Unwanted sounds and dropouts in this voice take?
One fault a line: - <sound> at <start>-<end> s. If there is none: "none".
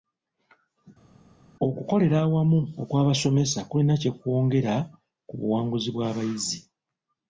none